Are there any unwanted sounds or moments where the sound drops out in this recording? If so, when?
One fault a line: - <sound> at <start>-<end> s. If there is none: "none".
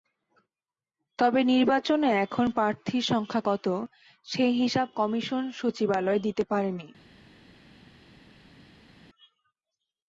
none